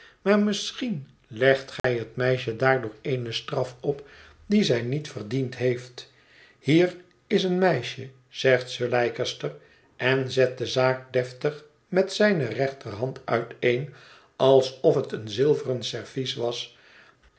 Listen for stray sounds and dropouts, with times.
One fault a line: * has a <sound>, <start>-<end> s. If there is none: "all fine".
* has a dropout, 1.8-1.8 s